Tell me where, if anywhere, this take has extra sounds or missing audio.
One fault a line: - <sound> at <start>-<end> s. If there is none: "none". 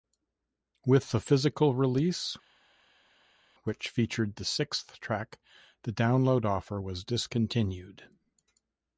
none